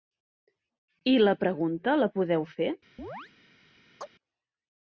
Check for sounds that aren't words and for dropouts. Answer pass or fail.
fail